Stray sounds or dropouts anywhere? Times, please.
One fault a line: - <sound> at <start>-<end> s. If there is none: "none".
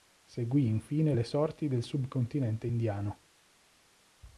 none